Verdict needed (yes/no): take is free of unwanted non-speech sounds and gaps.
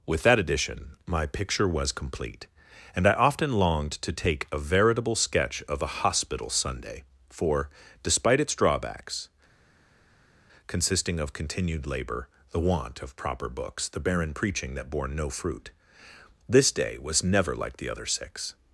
yes